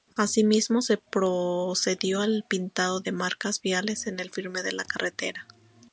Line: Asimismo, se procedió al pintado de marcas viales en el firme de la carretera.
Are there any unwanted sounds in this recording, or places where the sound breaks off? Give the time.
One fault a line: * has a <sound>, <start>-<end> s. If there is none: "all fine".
all fine